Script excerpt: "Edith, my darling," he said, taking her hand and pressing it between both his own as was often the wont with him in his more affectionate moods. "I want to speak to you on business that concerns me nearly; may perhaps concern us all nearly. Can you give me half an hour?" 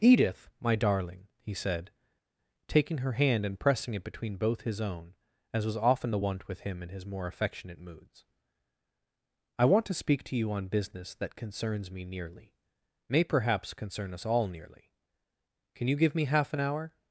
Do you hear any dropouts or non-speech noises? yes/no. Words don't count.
no